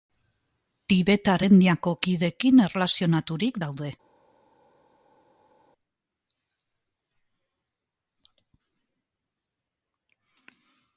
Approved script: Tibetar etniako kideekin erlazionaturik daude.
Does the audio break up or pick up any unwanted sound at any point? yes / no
no